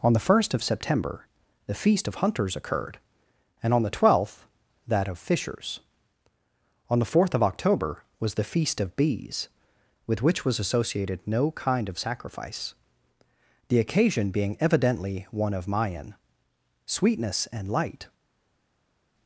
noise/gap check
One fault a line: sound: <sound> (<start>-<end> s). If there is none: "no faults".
no faults